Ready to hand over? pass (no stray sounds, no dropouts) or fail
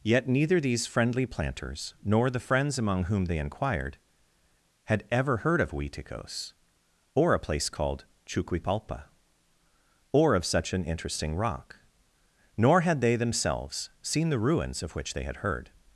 pass